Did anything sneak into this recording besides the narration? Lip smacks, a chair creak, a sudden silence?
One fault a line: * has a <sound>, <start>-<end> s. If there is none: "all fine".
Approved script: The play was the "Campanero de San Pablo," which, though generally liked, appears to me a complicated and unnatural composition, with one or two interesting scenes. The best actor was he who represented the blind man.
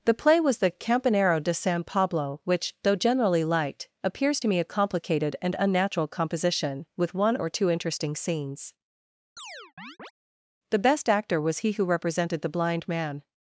* has a chirp, 9.4-10.1 s